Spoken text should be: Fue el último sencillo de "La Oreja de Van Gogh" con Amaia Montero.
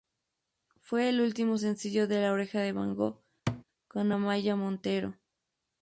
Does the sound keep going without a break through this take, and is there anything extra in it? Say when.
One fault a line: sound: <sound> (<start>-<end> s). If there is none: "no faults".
sound: thud (3.5-3.6 s)